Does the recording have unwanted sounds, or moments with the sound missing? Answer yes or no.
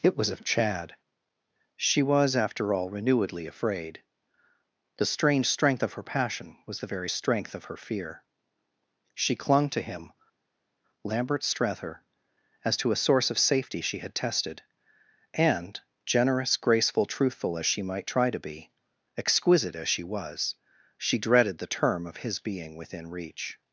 no